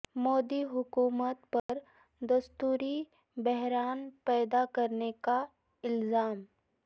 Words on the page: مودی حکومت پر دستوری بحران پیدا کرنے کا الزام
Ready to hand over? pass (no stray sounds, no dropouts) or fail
fail